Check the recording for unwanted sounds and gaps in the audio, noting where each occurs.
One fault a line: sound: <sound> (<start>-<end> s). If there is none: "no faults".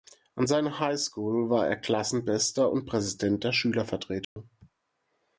sound: dropout (4.2-4.4 s)